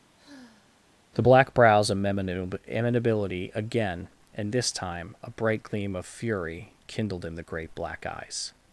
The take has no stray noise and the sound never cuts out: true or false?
false